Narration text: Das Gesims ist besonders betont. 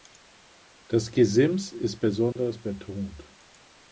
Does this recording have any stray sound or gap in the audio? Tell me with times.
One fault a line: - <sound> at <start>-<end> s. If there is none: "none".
- dropout at 2.3-2.4 s